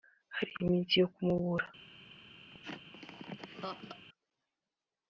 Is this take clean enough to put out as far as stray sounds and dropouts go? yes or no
no